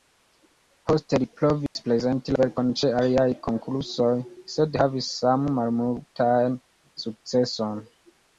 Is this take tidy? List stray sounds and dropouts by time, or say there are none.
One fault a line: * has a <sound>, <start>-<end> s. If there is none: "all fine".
* has a dropout, 1.7-1.8 s